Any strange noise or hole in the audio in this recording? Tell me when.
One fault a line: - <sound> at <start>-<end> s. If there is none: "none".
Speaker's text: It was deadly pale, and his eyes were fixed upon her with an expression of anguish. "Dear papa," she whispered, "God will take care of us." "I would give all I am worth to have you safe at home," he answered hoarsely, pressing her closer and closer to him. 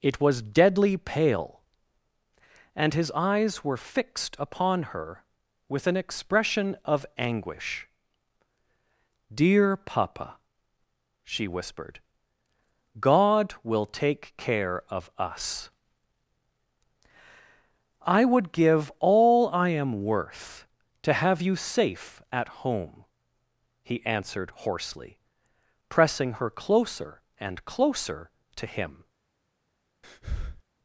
- breath at 30.0-30.6 s